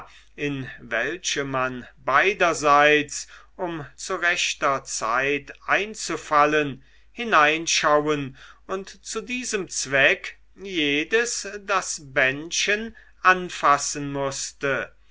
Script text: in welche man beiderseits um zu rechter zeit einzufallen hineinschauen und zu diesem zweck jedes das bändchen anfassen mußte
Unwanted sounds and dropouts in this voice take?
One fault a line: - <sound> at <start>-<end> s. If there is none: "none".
none